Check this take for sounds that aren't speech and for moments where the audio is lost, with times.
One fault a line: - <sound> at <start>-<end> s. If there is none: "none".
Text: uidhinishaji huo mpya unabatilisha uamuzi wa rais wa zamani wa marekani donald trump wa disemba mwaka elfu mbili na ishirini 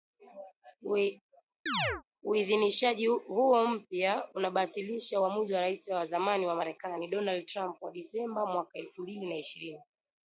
- chirp at 1.7-2.0 s